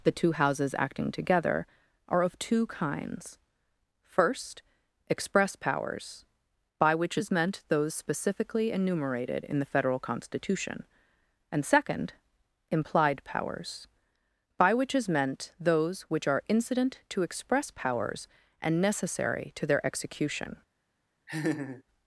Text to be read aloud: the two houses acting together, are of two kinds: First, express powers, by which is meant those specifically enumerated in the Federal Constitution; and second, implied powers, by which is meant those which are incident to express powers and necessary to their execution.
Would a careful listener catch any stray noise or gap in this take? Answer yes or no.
yes